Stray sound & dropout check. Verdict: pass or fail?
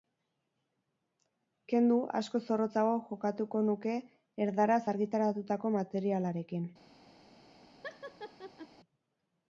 fail